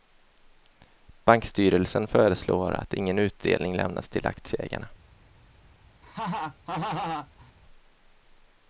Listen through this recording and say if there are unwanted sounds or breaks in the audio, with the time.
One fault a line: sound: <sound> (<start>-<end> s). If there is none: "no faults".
sound: laugh (6.0-7.5 s)